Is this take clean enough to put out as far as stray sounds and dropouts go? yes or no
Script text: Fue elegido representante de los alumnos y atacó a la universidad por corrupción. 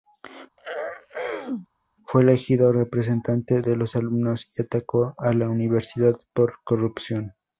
no